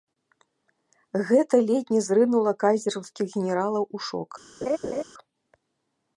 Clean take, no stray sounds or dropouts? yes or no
no